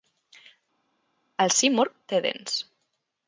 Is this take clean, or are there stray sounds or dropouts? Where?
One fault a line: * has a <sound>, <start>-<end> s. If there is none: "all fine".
all fine